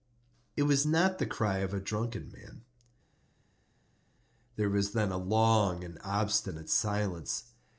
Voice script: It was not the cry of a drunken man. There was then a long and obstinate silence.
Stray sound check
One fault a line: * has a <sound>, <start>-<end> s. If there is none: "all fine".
all fine